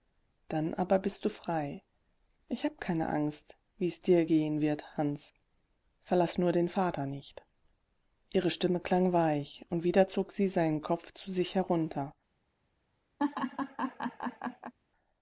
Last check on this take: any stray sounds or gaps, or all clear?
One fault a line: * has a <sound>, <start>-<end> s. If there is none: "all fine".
* has a laugh, 13.2-14.7 s